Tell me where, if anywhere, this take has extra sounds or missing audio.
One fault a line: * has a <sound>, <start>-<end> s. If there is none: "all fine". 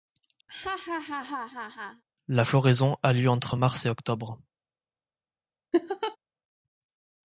* has a laugh, 0.5-2.0 s
* has a laugh, 5.7-6.2 s